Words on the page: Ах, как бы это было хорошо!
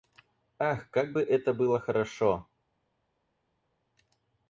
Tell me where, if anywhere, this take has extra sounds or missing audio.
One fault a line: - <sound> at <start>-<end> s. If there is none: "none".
none